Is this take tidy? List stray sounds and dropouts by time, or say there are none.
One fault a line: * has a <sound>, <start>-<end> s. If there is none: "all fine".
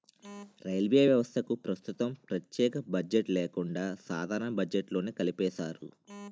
all fine